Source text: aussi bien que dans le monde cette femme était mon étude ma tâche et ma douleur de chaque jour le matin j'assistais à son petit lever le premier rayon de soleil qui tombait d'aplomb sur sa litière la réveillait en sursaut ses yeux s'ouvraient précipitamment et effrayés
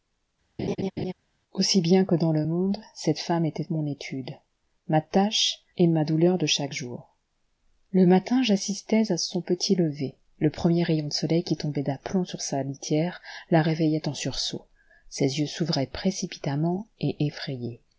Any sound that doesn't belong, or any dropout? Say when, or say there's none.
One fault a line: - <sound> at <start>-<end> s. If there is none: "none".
- laugh at 0.6-1.1 s